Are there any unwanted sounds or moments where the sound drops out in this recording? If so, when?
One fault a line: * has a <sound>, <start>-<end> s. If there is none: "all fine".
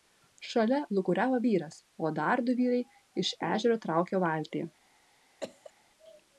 * has a cough, 5.4-5.7 s